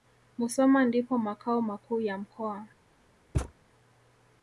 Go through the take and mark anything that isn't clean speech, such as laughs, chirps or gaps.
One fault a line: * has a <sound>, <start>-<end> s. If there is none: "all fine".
* has a thud, 3.3-3.5 s